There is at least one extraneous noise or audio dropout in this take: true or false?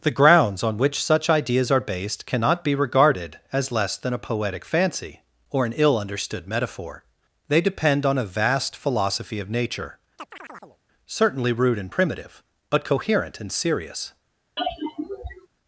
true